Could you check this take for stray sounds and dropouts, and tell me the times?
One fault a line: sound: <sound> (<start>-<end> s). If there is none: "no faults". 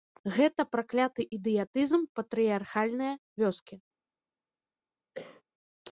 sound: cough (5.1-5.4 s)